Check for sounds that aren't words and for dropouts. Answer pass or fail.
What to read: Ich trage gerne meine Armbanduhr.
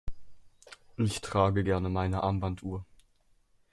pass